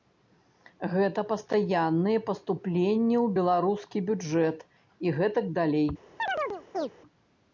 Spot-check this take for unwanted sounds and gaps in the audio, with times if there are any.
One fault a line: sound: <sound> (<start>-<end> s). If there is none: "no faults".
sound: chirp (6.2-6.9 s)